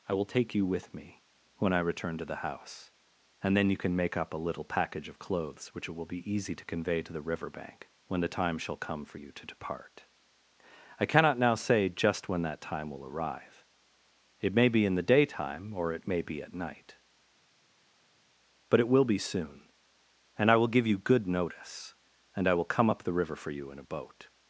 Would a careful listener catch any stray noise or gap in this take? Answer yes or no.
no